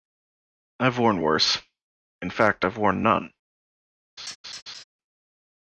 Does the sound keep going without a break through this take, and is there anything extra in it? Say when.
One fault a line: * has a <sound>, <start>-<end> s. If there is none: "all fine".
* has a laugh, 4.2-4.8 s